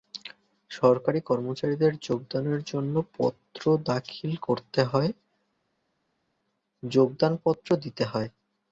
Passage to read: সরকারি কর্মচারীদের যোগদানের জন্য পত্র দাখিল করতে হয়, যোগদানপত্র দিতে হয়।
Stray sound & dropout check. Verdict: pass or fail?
pass